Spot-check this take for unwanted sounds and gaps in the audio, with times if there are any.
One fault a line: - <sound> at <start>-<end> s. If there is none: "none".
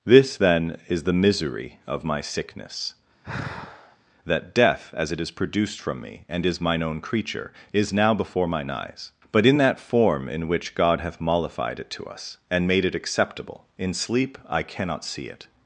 - sigh at 3.2-4.0 s